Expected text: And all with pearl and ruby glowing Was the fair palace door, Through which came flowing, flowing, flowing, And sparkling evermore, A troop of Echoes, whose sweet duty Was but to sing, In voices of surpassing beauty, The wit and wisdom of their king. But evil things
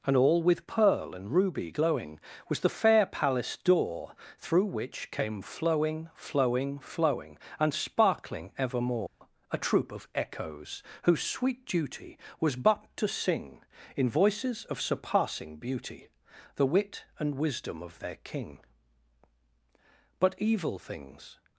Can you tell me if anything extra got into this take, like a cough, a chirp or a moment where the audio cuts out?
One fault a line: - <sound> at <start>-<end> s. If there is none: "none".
- dropout at 9.1-9.2 s